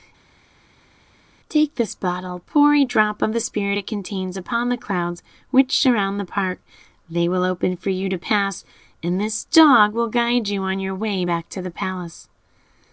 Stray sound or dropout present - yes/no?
no